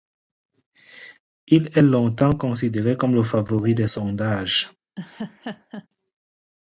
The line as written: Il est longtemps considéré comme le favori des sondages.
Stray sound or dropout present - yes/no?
yes